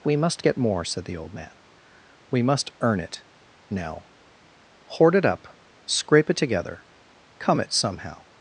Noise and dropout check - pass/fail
pass